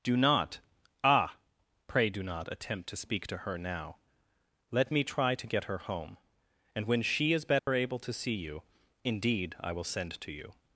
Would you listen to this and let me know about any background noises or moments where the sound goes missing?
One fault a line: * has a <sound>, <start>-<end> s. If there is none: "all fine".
* has a dropout, 7.6-7.7 s